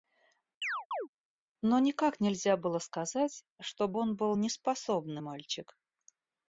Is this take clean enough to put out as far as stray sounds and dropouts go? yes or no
no